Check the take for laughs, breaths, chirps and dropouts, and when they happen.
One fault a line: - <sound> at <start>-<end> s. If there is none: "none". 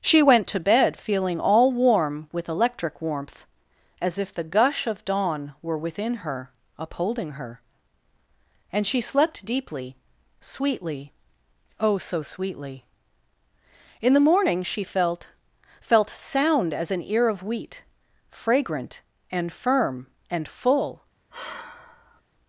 - sigh at 21.3-22.2 s